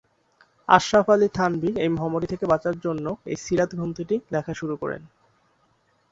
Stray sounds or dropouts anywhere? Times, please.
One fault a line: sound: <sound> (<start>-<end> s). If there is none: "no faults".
no faults